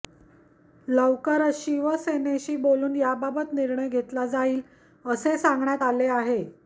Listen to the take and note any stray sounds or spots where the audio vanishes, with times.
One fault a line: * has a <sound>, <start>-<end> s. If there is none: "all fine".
all fine